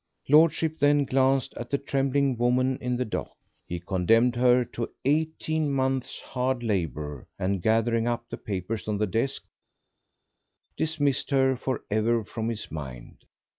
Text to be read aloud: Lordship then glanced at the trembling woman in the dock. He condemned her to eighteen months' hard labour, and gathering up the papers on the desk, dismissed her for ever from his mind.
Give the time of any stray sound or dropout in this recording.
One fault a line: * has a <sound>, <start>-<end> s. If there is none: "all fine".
all fine